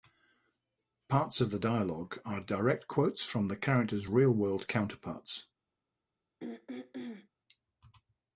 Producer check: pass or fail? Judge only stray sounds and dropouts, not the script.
fail